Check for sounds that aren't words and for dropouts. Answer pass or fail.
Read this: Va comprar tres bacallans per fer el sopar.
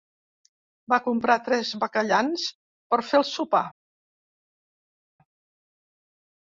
pass